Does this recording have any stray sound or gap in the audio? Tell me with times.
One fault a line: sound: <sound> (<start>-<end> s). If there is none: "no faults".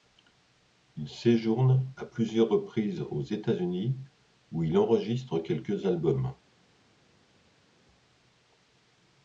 no faults